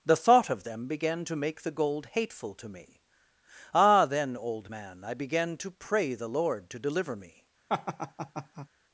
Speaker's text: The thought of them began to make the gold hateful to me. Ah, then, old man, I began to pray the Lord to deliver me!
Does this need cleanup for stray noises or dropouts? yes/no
yes